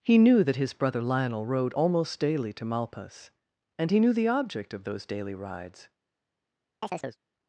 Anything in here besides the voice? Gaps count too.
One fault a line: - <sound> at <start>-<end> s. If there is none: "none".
- chirp at 6.8-7.2 s